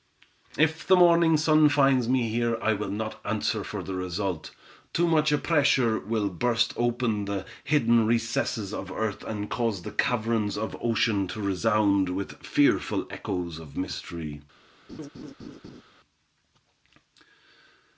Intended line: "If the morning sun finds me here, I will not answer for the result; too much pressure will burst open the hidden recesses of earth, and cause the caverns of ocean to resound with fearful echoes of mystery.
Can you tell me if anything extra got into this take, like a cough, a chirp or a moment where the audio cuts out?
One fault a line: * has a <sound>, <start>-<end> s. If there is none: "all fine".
* has a laugh, 14.9-15.8 s